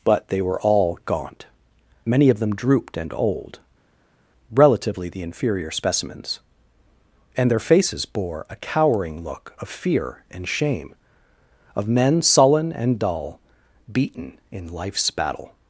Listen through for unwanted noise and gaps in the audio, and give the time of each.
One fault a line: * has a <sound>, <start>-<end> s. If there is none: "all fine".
all fine